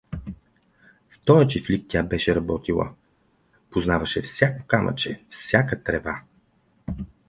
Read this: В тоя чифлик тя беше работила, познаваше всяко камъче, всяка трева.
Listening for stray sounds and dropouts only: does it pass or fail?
pass